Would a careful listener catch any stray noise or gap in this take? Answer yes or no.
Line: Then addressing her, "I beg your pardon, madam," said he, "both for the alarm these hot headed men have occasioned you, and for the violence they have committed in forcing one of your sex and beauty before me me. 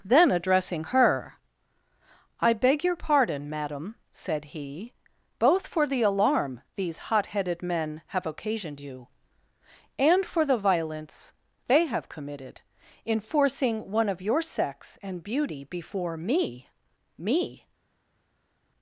no